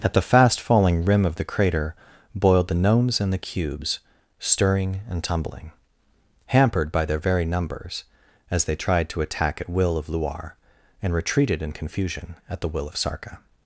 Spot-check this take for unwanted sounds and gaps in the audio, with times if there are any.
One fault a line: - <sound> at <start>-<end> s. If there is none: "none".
none